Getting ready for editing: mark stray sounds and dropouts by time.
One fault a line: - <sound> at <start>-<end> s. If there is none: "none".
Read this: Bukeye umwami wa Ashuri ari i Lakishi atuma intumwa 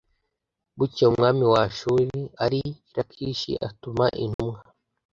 - dropout at 4.3-4.4 s